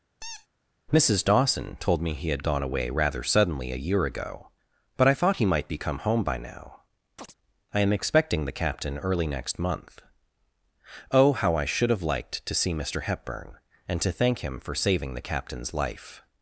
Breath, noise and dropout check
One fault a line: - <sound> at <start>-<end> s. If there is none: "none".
- squeak at 0.2-0.5 s
- chirp at 7.2-7.3 s